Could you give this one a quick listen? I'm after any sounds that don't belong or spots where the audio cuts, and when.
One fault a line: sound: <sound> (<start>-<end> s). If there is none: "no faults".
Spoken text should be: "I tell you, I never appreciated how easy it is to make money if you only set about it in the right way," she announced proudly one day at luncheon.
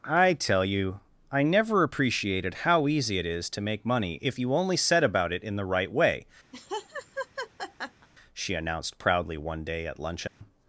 sound: laugh (6.5-8.1 s)
sound: dropout (10.3-10.4 s)